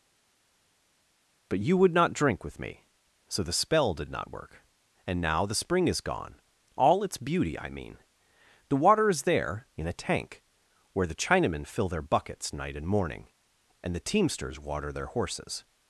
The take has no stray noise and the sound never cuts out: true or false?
true